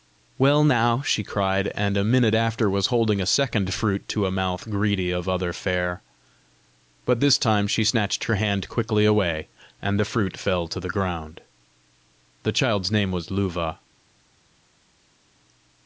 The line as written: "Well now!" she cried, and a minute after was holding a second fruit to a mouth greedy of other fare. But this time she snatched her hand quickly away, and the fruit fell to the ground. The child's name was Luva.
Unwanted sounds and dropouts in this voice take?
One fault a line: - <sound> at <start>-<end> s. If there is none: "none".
none